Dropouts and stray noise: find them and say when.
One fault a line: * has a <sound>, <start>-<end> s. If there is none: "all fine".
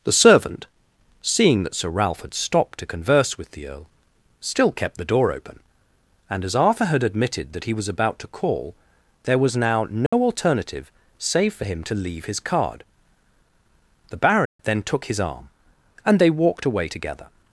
* has a dropout, 10.1-10.1 s
* has a dropout, 14.5-14.6 s